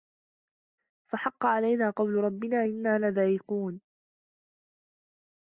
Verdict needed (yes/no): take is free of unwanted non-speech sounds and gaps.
yes